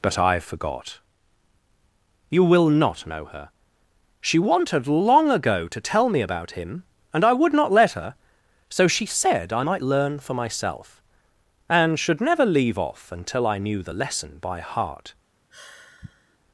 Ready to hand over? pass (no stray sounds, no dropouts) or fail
fail